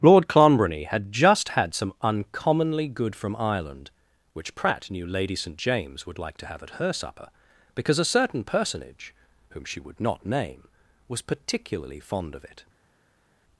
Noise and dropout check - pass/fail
pass